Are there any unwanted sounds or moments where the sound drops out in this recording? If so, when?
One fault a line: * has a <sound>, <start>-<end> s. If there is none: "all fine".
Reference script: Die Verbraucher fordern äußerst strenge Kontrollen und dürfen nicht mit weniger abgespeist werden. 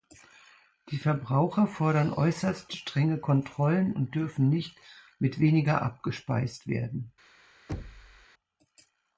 * has a thud, 7.7-8.3 s